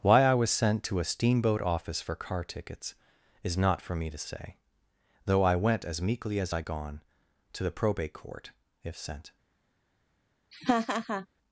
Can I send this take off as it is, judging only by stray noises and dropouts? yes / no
no